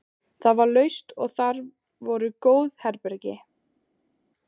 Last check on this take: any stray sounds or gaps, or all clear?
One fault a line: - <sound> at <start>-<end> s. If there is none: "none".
none